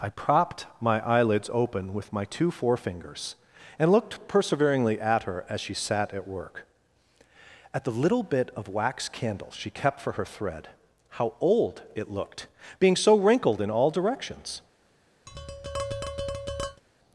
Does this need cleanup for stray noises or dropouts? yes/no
yes